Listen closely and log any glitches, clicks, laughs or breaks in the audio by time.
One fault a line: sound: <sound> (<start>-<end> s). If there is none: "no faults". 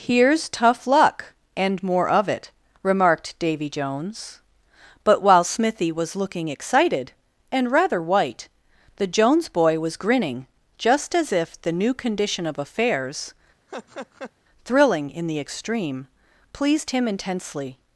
sound: laugh (13.7-14.3 s)